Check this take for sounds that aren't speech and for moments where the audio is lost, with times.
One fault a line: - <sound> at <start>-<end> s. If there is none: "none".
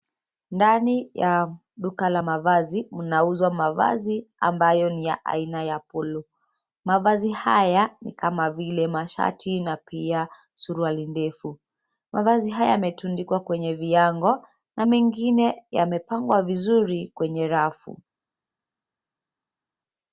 none